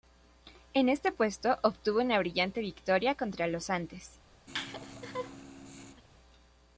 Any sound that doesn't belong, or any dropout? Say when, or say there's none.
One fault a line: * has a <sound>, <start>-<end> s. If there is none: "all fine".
* has a laugh, 4.5-6.0 s